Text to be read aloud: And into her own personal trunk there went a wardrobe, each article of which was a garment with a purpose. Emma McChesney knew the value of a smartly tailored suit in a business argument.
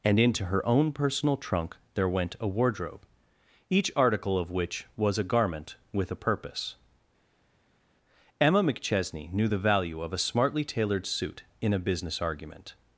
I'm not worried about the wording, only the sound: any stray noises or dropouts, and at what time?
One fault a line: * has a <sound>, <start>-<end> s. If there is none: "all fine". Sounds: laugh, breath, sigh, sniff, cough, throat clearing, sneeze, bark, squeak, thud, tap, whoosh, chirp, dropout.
all fine